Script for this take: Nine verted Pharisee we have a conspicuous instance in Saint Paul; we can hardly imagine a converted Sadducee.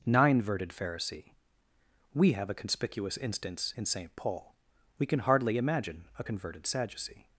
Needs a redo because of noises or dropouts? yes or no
no